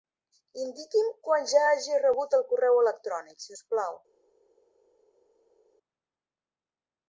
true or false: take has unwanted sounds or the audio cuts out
false